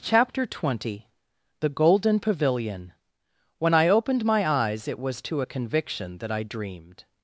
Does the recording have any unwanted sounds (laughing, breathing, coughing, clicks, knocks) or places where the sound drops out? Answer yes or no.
no